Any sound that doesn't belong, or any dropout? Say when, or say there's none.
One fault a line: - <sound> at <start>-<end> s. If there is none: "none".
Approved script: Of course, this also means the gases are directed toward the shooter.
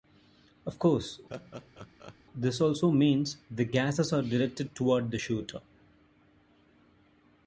- laugh at 1.3-2.2 s